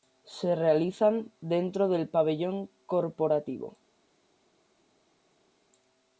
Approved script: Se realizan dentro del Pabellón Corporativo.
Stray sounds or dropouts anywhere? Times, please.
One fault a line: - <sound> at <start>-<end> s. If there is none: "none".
none